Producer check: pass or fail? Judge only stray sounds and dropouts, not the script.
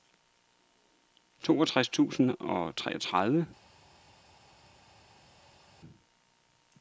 pass